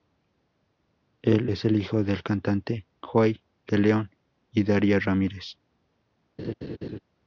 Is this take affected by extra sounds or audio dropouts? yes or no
yes